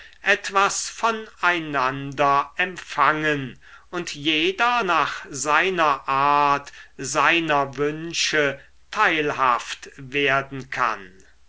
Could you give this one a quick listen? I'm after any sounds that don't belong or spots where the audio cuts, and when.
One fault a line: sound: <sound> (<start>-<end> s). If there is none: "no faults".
no faults